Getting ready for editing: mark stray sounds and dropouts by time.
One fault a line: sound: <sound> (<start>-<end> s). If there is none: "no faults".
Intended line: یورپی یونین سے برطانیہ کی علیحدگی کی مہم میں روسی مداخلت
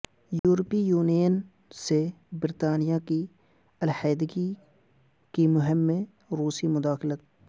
sound: dropout (0.4-0.4 s)